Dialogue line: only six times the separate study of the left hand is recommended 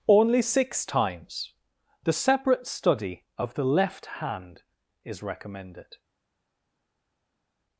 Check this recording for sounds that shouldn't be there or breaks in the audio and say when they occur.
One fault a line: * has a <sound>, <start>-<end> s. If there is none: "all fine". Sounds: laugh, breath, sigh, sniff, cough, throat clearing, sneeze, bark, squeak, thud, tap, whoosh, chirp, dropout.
all fine